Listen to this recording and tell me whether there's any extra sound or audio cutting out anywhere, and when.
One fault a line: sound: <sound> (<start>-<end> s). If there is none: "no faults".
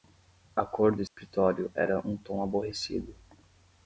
sound: dropout (1.1-1.2 s)